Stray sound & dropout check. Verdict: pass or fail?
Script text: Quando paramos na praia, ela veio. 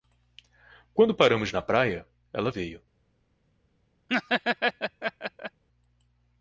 fail